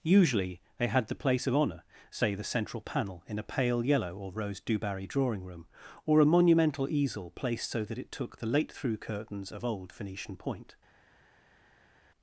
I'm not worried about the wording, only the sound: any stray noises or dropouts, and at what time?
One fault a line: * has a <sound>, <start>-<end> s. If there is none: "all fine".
all fine